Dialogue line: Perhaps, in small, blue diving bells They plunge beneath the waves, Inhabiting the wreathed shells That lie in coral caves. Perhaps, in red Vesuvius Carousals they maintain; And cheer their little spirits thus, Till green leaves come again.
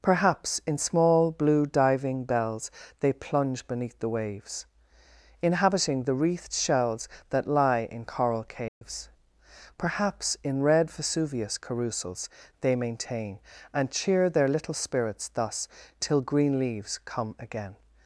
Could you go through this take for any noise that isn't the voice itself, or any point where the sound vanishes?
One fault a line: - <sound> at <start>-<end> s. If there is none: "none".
- dropout at 8.7-8.8 s